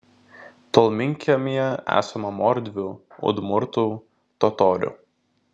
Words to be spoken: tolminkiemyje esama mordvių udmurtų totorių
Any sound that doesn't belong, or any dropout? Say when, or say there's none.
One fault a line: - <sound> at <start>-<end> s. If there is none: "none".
none